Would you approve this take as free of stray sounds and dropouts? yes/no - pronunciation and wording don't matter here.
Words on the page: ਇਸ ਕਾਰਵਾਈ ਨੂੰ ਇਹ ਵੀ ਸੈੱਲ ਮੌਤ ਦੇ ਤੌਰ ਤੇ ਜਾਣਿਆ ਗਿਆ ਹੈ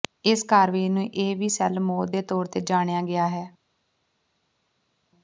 yes